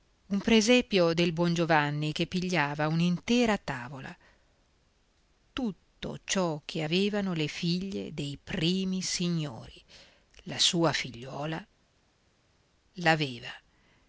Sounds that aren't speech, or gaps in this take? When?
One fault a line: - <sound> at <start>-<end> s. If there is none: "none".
none